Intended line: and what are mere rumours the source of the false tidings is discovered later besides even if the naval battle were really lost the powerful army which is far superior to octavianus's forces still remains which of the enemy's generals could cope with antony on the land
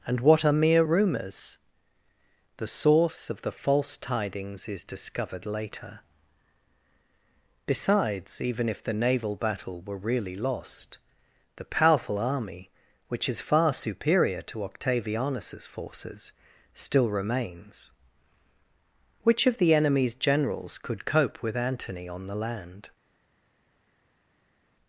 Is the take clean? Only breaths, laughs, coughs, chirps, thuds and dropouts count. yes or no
yes